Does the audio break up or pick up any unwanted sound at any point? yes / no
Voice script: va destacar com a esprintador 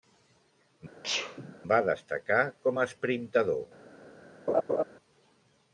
yes